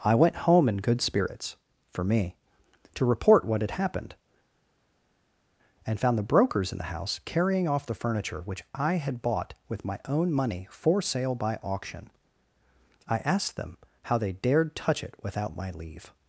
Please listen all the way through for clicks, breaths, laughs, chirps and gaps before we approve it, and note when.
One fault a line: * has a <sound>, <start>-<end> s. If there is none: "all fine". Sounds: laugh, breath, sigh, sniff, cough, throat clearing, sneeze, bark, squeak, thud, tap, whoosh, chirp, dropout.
all fine